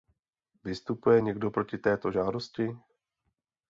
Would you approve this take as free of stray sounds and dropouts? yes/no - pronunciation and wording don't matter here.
yes